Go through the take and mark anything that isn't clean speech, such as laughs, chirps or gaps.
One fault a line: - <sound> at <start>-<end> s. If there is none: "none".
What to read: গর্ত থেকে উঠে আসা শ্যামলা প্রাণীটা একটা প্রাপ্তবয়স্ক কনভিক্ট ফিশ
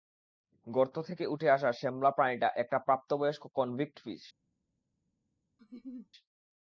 - laugh at 5.6-6.1 s